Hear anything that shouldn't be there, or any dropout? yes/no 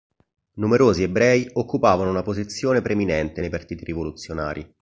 no